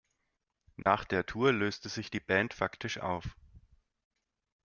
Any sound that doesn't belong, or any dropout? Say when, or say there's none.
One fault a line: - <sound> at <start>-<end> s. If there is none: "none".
- dropout at 0.8-0.9 s